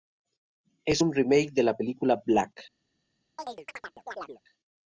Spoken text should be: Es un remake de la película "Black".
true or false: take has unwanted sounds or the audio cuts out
true